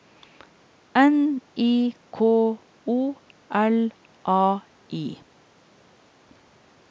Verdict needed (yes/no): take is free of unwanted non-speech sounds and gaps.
yes